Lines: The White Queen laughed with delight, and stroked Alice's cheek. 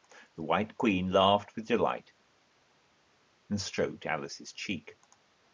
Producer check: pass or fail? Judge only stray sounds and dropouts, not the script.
pass